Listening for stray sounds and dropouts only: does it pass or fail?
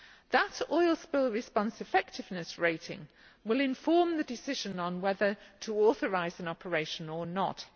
pass